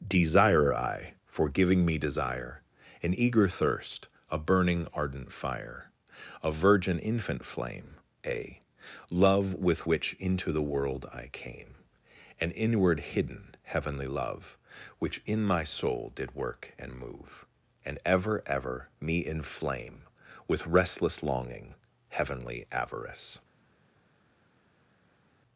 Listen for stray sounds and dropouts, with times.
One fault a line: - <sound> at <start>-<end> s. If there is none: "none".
none